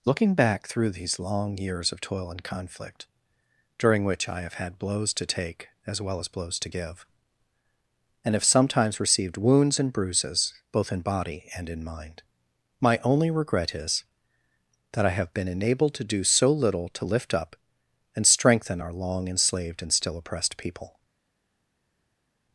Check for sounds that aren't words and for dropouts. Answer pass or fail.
pass